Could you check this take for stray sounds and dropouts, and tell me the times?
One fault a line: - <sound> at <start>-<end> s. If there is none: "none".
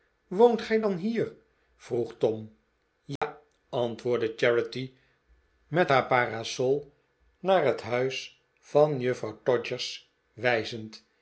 - dropout at 3.2-3.2 s